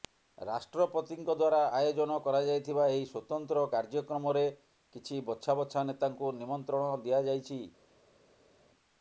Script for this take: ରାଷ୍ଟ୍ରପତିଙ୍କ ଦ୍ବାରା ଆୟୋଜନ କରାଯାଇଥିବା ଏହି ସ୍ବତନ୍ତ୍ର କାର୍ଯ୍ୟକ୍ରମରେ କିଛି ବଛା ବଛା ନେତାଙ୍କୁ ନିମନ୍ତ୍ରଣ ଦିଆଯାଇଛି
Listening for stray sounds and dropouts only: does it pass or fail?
pass